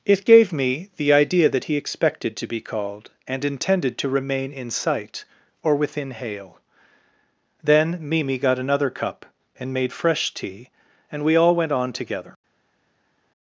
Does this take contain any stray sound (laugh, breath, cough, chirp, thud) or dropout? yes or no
no